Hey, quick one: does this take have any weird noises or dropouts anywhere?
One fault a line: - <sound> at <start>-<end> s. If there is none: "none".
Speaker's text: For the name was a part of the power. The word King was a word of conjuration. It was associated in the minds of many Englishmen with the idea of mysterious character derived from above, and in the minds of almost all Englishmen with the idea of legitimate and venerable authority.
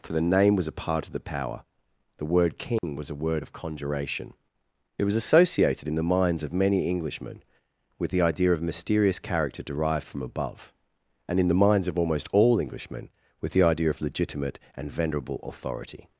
- dropout at 2.8-2.8 s